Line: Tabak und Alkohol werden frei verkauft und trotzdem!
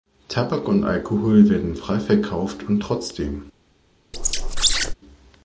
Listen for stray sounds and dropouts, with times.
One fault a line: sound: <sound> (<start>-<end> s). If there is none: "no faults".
sound: squeak (4.1-4.9 s)